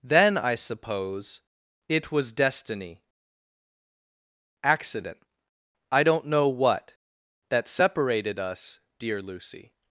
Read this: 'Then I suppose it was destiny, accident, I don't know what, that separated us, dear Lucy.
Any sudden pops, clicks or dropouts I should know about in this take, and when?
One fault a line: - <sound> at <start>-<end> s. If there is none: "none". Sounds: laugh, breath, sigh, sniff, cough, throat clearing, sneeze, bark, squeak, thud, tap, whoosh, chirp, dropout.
none